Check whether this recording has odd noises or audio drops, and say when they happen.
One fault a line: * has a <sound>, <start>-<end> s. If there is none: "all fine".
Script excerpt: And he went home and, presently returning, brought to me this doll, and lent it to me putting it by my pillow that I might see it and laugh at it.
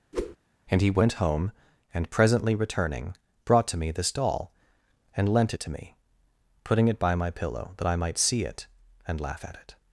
* has a whoosh, 0.1-0.4 s